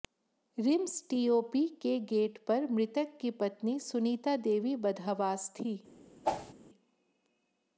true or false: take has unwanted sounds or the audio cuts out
true